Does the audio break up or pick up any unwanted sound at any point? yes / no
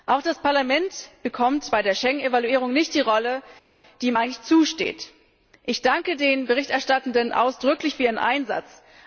no